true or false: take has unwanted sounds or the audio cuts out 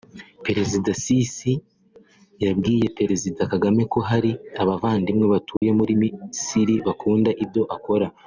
true